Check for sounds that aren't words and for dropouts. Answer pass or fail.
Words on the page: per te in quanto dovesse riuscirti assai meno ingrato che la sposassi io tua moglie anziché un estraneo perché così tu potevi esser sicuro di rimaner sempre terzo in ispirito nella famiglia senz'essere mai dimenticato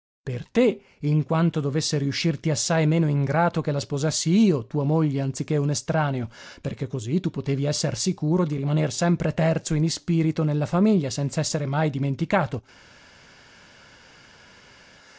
pass